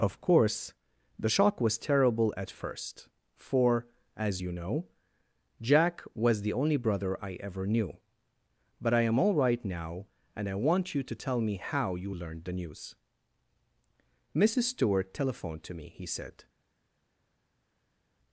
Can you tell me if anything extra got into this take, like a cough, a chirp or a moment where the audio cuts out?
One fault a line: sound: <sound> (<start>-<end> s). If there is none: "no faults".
no faults